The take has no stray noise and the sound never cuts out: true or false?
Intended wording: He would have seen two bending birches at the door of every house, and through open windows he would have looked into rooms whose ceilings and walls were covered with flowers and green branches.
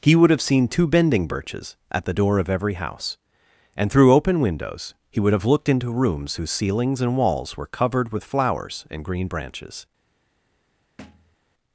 false